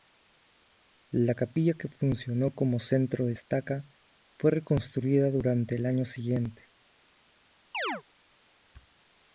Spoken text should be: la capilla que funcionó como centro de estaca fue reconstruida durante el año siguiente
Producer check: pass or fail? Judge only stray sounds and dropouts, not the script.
fail